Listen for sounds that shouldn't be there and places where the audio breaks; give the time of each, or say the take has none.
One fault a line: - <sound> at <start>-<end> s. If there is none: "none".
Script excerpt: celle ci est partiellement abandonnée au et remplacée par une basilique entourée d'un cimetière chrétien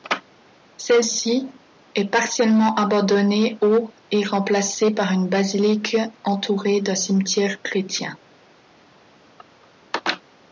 none